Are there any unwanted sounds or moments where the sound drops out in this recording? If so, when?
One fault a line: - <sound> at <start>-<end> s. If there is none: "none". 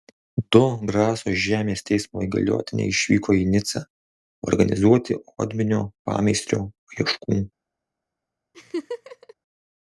- laugh at 8.5-9.3 s